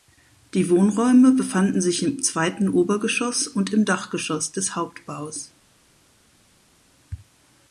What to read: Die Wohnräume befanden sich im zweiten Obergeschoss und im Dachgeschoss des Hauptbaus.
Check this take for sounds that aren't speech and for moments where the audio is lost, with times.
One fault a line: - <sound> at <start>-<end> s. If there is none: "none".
none